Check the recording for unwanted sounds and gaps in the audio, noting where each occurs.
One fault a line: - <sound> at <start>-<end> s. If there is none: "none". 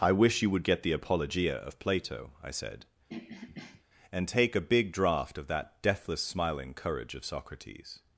- throat clearing at 3.1-3.8 s